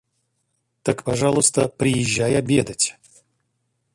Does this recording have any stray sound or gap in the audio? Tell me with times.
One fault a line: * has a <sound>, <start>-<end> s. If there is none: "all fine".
all fine